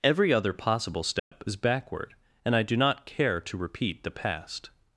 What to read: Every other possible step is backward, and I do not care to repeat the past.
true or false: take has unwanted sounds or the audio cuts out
true